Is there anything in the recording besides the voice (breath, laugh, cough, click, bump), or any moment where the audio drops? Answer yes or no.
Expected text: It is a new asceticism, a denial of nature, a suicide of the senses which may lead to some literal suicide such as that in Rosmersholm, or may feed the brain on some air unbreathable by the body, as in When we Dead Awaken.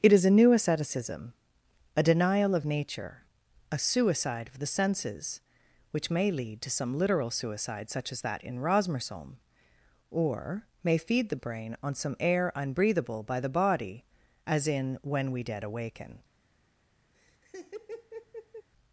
yes